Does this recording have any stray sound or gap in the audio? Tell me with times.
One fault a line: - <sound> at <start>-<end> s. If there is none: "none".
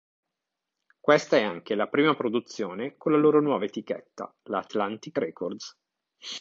none